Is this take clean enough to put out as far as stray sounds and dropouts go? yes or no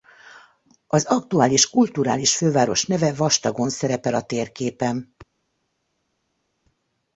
yes